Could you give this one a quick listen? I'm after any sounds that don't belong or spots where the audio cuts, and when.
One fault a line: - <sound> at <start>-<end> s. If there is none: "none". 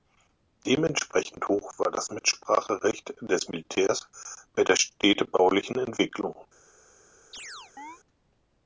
- chirp at 7.3-8.0 s